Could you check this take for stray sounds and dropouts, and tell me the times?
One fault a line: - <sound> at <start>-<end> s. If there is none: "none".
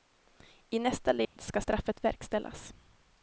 - dropout at 1.2-1.4 s